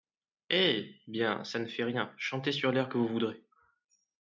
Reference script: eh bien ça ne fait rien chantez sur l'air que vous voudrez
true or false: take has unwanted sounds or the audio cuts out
false